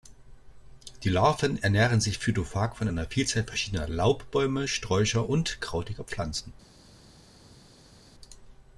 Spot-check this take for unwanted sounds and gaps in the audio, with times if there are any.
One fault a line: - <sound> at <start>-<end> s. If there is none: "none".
none